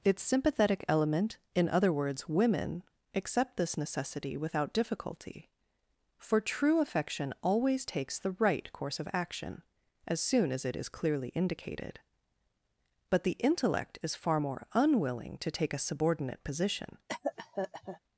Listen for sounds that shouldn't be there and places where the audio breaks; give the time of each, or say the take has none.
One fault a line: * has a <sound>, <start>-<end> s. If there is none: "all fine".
* has a cough, 17.1-18.0 s